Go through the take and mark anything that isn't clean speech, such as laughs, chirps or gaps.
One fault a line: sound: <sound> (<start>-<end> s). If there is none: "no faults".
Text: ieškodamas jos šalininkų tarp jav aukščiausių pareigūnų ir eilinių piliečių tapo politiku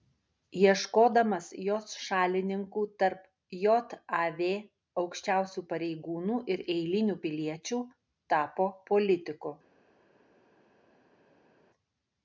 no faults